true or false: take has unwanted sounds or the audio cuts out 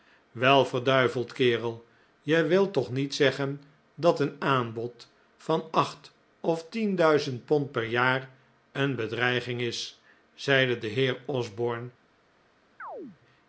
true